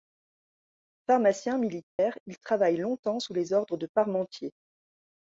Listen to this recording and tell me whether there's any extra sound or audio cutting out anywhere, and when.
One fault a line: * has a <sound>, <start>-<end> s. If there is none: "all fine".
* has a dropout, 1.9-2.0 s